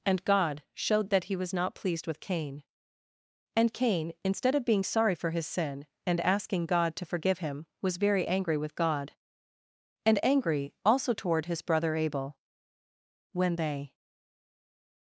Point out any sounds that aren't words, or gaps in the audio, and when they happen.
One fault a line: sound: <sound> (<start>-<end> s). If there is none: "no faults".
no faults